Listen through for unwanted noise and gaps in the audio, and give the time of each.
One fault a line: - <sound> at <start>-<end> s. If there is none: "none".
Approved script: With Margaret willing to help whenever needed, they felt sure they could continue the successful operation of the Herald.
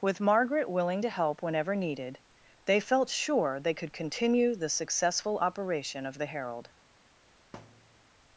- thud at 7.5-8.1 s